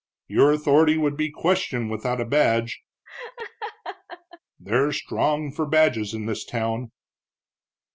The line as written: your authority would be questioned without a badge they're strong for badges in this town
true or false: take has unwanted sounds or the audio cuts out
true